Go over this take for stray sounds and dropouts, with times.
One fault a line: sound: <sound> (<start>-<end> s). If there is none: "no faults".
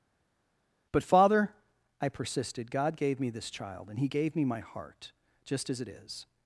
no faults